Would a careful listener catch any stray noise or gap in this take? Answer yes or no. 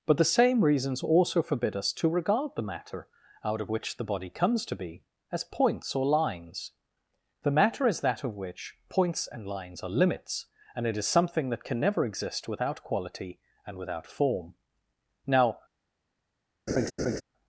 yes